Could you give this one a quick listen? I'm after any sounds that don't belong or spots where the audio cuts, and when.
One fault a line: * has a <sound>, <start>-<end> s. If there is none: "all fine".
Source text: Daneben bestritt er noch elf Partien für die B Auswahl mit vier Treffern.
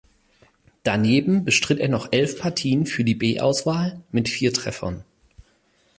all fine